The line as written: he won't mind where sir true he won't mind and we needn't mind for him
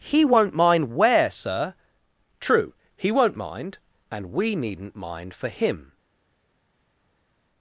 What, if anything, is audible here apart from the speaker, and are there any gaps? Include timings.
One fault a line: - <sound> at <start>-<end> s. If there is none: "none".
none